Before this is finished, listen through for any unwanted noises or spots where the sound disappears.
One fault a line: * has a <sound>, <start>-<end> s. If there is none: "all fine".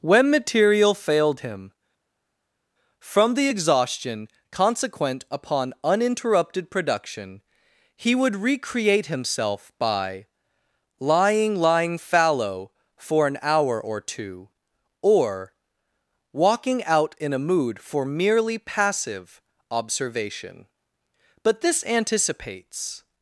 all fine